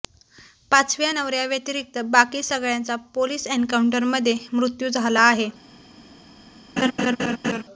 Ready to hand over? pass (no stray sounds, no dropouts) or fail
fail